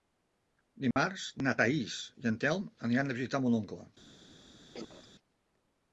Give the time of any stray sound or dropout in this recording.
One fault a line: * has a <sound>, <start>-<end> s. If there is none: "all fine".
* has a dropout, 0.9-1.0 s
* has a cough, 4.7-5.1 s